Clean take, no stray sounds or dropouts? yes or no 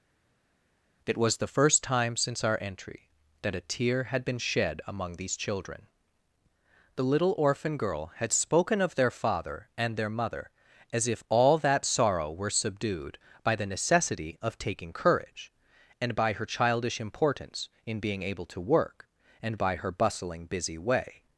yes